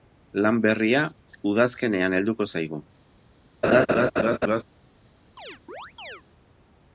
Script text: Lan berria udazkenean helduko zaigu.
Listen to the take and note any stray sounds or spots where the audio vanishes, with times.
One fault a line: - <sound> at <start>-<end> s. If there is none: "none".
- laugh at 3.6-4.6 s
- chirp at 5.4-6.2 s